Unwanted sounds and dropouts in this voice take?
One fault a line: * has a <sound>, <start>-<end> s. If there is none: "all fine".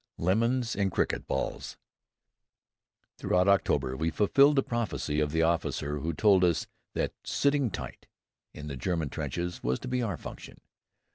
all fine